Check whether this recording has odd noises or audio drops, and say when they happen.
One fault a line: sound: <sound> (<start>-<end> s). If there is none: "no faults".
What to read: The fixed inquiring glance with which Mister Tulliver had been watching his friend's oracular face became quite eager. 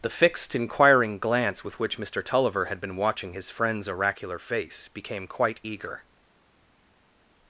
no faults